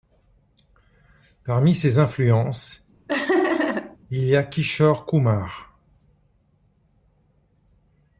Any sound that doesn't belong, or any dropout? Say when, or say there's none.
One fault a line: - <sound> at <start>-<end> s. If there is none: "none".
- laugh at 3.1-4.0 s